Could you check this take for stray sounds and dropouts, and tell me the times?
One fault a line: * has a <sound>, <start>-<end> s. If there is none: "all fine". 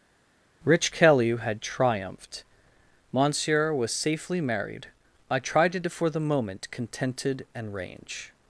all fine